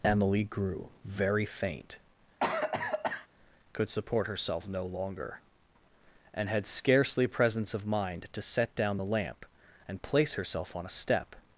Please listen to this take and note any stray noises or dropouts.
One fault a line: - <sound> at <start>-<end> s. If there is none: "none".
- cough at 2.4-3.3 s